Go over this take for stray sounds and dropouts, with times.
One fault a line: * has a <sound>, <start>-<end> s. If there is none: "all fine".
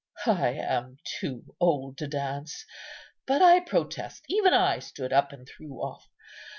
all fine